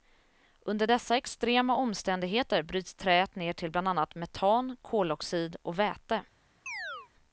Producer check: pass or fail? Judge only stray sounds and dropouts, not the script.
fail